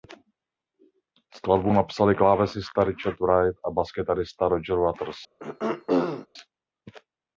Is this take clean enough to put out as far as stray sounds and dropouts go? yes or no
no